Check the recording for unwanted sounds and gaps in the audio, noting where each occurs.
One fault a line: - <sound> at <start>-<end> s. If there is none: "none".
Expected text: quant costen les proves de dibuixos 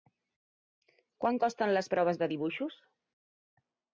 none